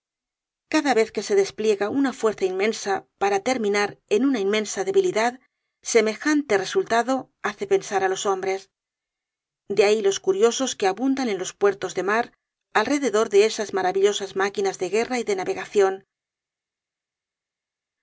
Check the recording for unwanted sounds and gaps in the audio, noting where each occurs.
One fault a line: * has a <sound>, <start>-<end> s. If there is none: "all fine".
all fine